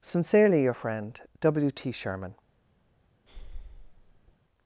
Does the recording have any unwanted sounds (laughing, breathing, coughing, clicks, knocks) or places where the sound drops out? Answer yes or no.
yes